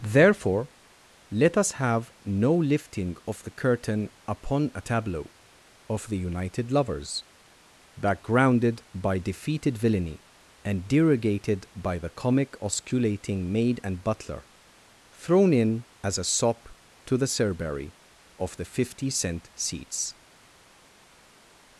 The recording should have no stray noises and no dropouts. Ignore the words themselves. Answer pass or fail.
pass